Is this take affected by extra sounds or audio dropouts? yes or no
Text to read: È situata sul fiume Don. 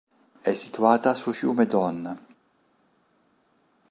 no